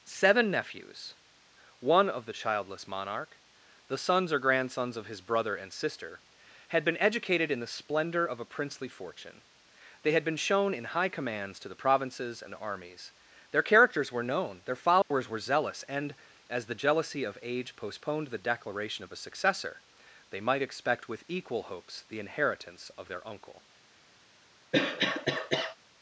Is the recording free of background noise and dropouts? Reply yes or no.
no